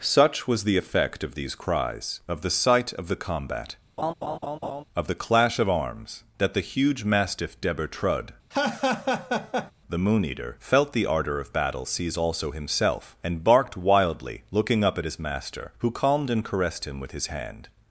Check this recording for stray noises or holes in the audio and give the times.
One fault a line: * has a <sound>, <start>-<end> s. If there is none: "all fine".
* has a laugh, 4.0-4.8 s
* has a laugh, 8.5-9.7 s